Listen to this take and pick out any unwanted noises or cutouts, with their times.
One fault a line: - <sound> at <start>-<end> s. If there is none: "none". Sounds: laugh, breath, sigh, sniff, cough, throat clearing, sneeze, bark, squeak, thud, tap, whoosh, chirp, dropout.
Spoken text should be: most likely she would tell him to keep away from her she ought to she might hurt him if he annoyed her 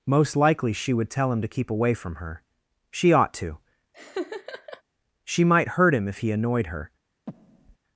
- laugh at 3.9-4.8 s
- breath at 7.3-7.8 s